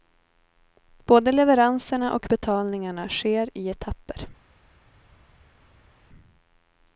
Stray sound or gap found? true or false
false